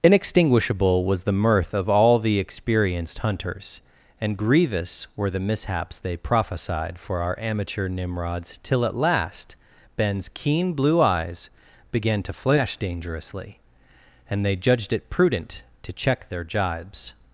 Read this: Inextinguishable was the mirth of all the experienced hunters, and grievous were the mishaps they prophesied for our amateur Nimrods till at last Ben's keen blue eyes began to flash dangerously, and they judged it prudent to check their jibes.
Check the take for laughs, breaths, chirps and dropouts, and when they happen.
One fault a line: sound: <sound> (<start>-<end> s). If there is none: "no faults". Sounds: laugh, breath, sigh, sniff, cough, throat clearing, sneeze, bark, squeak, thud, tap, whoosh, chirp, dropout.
no faults